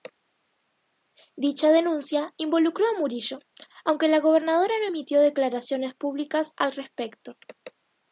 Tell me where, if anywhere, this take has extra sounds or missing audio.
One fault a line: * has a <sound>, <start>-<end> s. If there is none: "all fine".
all fine